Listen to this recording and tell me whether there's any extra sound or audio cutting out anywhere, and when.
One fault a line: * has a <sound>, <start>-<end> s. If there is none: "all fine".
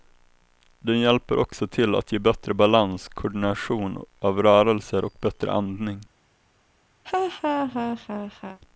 * has a laugh, 7.0-8.6 s